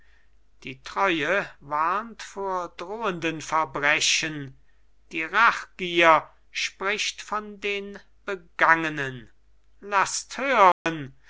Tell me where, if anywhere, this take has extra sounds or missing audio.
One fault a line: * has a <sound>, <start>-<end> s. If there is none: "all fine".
* has a dropout, 10.7-10.9 s